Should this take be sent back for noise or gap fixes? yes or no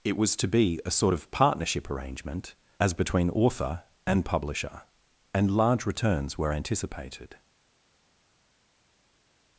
no